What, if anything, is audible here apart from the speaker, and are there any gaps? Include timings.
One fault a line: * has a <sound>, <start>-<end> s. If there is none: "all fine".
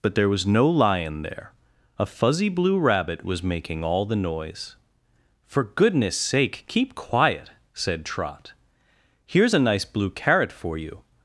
all fine